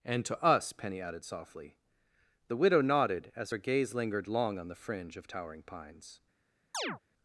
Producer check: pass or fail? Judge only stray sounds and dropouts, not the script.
fail